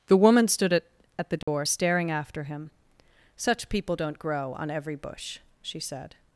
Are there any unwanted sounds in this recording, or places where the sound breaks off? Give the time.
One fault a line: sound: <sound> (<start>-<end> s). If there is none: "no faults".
sound: dropout (1.4-1.5 s)